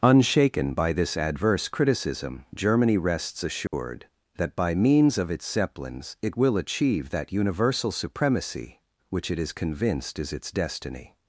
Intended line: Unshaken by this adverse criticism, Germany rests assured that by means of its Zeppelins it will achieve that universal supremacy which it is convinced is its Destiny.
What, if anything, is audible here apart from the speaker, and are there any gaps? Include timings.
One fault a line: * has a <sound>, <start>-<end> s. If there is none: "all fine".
* has a dropout, 3.7-3.7 s